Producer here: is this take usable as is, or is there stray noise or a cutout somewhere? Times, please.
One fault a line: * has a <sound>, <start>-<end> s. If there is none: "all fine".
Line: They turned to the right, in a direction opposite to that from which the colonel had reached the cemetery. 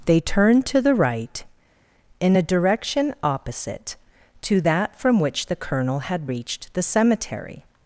all fine